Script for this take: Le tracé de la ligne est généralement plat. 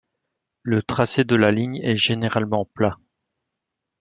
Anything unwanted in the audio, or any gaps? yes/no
no